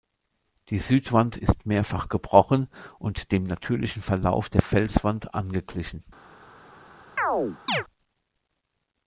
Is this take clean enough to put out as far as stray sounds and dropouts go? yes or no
no